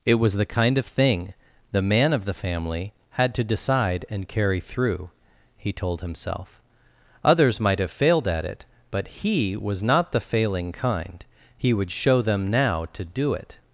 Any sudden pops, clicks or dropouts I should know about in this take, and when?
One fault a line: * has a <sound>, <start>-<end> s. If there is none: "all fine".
all fine